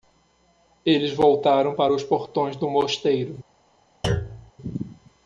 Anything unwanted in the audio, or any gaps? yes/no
yes